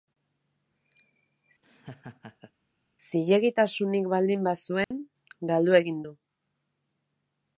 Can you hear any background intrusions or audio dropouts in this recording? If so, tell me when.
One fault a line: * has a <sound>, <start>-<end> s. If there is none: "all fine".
* has a laugh, 1.6-2.5 s
* has a dropout, 4.8-4.9 s